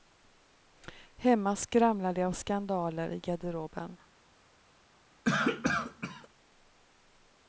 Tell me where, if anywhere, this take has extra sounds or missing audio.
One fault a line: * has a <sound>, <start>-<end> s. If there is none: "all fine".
* has a cough, 5.2-6.3 s